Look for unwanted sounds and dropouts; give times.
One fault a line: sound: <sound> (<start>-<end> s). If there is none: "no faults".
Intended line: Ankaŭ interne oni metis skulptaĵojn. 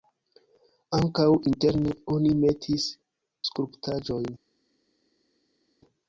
no faults